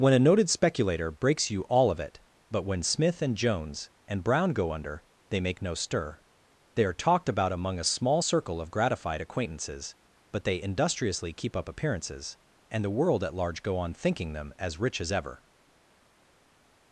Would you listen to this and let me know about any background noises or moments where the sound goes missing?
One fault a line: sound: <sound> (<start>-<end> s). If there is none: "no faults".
no faults